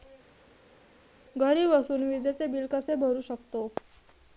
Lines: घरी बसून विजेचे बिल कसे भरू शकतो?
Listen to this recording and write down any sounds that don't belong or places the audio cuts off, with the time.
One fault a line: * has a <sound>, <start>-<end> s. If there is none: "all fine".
all fine